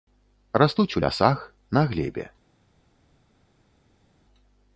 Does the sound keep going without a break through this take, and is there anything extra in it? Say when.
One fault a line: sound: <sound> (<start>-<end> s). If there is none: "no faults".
no faults